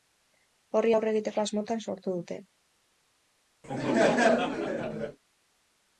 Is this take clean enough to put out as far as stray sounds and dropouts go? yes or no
no